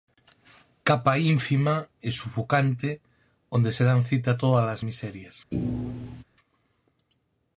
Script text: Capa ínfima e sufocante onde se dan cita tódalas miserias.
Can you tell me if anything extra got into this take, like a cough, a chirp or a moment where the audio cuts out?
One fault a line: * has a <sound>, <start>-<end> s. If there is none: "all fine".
* has a thud, 5.5-6.2 s